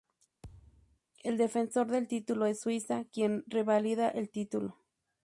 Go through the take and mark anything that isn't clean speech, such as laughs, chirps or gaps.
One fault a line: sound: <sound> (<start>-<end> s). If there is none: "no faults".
sound: thud (0.4-1.0 s)